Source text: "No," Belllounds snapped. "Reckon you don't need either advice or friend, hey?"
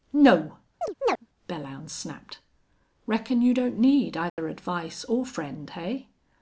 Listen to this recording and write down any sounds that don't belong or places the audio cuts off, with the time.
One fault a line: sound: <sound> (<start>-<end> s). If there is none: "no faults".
sound: chirp (0.8-1.3 s)
sound: dropout (4.3-4.4 s)